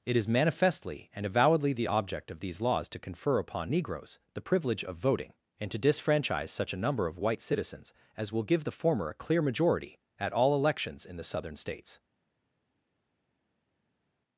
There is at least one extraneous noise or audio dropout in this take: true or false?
false